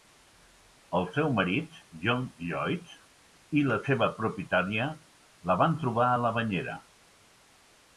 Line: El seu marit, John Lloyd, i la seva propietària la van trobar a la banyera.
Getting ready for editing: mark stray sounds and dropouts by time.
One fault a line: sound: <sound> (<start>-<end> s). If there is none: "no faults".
no faults